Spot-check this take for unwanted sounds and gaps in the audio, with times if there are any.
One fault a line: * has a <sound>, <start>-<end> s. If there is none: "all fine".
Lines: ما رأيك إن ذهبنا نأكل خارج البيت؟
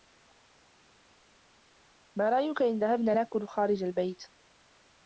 all fine